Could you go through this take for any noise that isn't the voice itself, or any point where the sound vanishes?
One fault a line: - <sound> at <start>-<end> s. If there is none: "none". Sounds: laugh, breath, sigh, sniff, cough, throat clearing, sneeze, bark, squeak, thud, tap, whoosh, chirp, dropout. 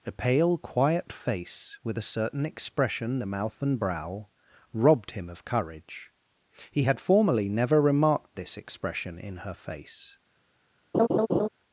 - laugh at 10.9-11.5 s